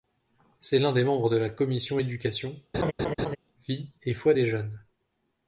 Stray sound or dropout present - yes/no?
yes